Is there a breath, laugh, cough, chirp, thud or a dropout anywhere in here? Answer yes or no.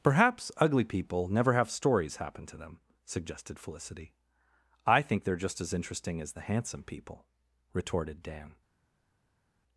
no